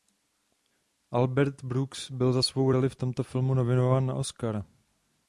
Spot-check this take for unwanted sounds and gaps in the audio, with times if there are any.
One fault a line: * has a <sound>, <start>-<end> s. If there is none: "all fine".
all fine